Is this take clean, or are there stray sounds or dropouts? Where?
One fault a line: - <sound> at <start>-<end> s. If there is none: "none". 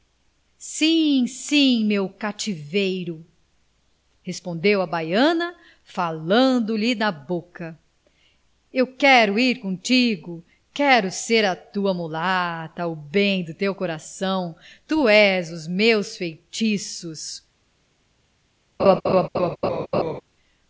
- laugh at 18.8-20.2 s